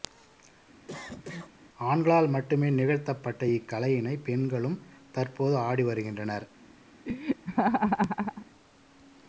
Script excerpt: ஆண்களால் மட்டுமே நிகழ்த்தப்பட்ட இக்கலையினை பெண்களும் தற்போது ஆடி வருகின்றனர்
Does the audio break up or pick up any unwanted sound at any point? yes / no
yes